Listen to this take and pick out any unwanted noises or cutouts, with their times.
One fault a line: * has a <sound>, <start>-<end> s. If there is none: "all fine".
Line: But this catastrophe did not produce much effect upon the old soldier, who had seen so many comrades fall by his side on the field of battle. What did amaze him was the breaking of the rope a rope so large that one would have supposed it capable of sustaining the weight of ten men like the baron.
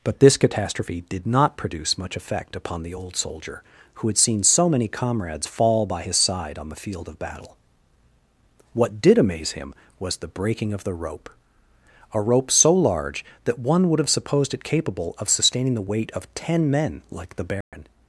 * has a dropout, 17.6-17.7 s